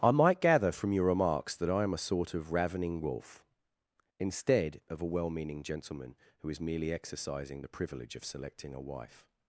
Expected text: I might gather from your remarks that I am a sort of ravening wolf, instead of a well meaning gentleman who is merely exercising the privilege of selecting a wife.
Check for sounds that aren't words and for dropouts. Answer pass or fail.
pass